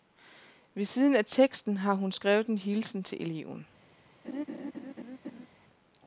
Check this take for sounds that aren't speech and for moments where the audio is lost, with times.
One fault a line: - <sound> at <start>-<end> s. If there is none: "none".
- laugh at 4.2-5.5 s